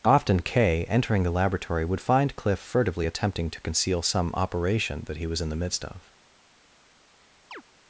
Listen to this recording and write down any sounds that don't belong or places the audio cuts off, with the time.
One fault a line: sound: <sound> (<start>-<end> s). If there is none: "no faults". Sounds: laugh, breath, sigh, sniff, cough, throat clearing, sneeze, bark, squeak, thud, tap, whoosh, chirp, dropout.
sound: chirp (7.5-7.6 s)